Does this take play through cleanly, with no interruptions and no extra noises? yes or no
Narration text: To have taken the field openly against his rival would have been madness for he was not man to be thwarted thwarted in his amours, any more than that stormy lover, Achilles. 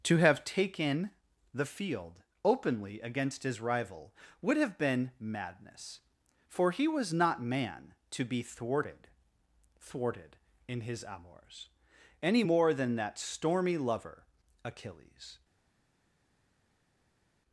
yes